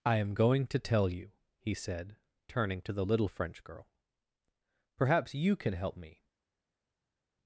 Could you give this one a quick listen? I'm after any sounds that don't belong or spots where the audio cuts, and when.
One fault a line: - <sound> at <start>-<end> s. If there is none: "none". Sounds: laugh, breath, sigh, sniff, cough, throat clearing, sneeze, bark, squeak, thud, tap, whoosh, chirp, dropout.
none